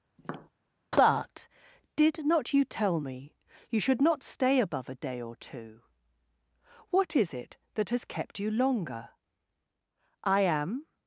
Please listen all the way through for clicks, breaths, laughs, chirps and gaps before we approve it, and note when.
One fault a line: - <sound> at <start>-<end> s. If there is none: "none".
- tap at 0.2-0.5 s